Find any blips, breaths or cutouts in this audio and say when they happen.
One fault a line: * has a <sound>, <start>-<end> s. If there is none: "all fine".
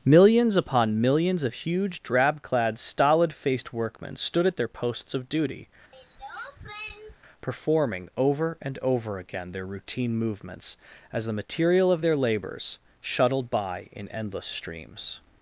* has a throat clearing, 5.9-7.2 s